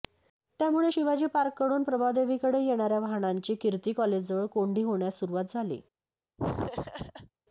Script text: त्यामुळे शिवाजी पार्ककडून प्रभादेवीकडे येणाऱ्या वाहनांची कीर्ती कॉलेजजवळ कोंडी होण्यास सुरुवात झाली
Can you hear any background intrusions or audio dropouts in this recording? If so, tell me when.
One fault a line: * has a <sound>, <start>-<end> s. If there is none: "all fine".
* has a laugh, 6.4-7.3 s